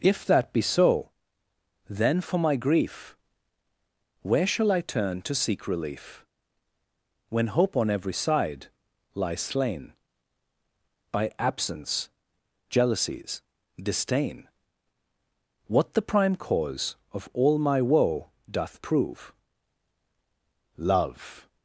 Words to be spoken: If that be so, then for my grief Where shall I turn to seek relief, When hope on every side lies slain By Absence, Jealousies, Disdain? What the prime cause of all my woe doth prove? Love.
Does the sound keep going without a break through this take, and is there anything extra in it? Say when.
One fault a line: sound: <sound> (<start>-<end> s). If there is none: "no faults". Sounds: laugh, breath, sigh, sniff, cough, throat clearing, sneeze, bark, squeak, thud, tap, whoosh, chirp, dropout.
no faults